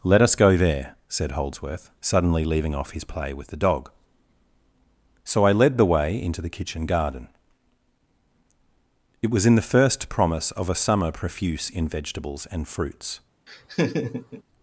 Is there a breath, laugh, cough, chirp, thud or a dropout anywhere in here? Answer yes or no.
yes